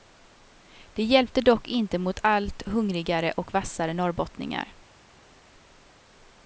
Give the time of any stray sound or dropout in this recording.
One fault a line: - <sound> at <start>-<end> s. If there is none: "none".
none